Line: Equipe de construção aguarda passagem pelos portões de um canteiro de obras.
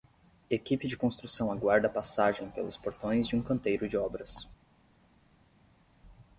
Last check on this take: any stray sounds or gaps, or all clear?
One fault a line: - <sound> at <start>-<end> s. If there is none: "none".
none